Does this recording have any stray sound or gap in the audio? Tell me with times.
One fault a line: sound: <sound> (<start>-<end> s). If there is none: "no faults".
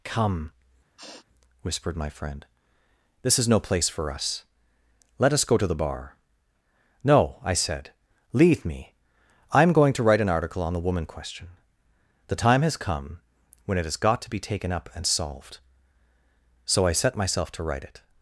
sound: sniff (1.0-1.3 s)